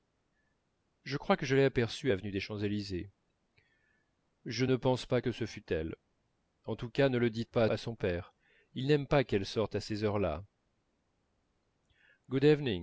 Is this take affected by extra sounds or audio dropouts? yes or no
no